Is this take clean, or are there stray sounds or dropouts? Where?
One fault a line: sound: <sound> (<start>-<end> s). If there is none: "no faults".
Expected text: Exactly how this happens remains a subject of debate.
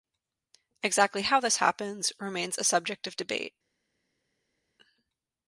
no faults